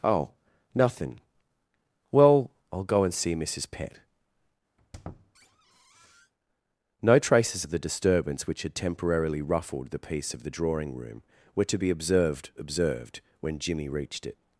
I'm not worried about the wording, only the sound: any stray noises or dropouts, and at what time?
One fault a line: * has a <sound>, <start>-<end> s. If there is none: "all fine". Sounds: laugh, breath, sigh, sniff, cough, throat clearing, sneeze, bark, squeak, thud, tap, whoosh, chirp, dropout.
* has a squeak, 4.8-6.3 s